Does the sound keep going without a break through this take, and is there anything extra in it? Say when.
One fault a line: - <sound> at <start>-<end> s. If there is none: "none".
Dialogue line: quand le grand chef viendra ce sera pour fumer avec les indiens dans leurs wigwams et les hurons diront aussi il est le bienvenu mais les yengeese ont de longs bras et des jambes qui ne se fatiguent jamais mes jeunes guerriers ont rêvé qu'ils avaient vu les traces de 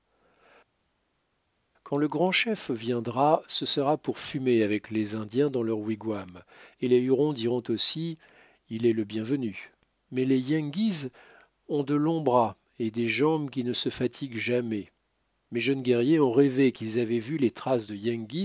none